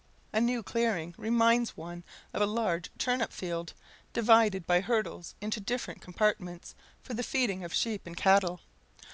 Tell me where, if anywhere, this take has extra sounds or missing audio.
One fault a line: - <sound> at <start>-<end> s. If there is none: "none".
none